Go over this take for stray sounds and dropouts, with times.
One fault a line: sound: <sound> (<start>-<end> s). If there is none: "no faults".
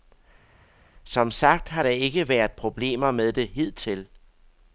no faults